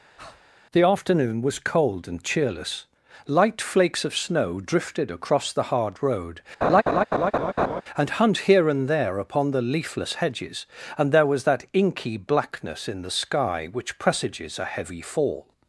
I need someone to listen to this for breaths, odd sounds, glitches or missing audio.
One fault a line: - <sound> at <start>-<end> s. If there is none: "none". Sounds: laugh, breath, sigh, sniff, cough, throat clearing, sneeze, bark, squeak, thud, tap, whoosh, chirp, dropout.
- breath at 0.2-0.4 s
- laugh at 6.6-7.8 s